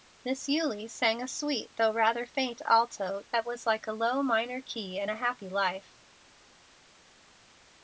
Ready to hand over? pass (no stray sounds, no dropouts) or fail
pass